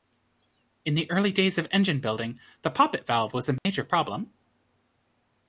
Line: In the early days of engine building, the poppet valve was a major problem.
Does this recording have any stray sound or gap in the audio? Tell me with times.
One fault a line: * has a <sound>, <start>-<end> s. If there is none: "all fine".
* has a dropout, 3.6-3.7 s